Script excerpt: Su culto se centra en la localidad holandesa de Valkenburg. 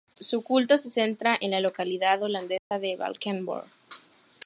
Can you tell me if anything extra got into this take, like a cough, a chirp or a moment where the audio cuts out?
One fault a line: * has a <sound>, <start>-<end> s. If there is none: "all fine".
* has a dropout, 2.6-2.7 s